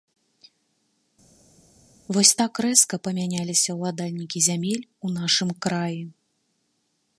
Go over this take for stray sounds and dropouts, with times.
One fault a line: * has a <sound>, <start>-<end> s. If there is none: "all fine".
all fine